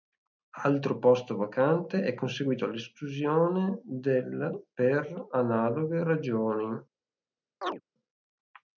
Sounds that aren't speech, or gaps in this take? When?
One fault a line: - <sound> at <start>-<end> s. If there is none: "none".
- chirp at 7.6-7.8 s